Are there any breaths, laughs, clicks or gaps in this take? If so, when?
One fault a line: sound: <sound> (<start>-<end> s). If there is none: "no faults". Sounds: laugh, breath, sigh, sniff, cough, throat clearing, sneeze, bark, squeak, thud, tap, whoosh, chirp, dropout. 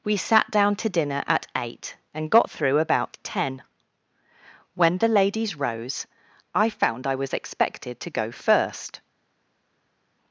no faults